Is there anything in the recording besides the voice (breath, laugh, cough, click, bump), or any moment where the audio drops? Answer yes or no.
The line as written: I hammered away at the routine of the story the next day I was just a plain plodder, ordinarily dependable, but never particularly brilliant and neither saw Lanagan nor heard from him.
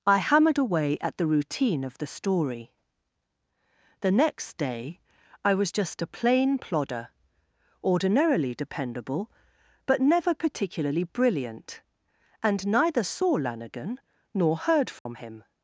yes